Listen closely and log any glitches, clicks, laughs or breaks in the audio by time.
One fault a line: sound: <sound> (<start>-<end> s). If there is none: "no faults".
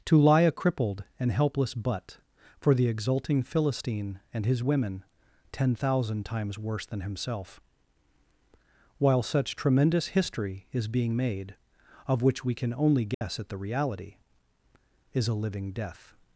sound: dropout (13.1-13.2 s)